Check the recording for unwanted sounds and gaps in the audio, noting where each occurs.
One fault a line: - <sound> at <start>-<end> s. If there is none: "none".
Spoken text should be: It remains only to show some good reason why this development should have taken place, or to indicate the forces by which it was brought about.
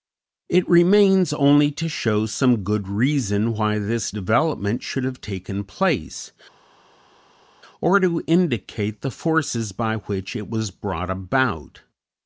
none